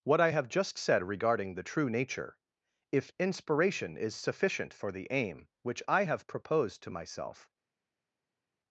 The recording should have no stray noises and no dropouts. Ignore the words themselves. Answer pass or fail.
pass